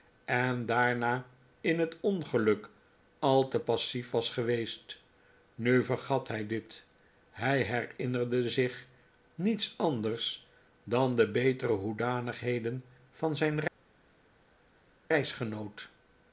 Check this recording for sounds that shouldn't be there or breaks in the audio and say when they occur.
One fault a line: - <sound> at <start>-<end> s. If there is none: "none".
none